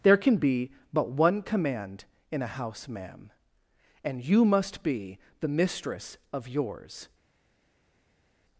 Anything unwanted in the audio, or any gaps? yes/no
no